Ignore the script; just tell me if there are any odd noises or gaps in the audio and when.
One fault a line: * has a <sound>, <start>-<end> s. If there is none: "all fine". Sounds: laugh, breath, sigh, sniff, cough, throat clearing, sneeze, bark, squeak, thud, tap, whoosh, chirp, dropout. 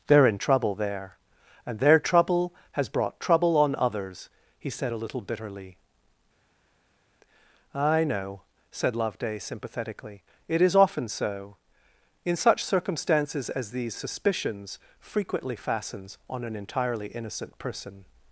all fine